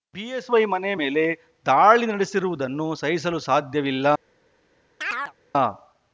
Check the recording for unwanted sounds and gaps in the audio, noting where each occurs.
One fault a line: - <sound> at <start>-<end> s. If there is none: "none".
- chirp at 5.0-5.3 s